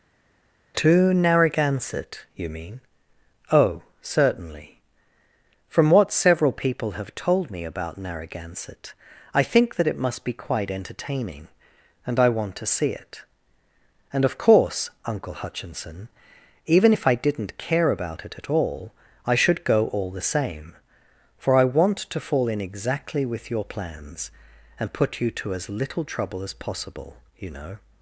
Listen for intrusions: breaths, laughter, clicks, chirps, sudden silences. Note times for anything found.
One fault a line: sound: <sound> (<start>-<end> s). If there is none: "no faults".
no faults